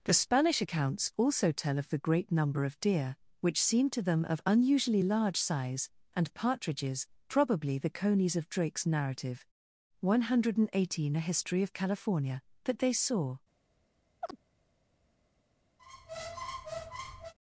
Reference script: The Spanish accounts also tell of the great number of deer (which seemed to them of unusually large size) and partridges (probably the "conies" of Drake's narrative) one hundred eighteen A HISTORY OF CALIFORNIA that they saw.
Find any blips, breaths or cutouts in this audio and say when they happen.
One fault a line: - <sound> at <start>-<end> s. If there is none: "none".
- chirp at 14.2-14.4 s
- squeak at 15.8-17.3 s